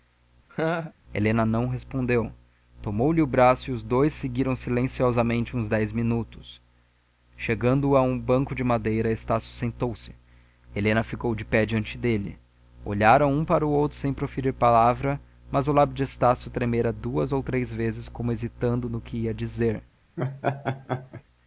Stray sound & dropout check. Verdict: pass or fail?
fail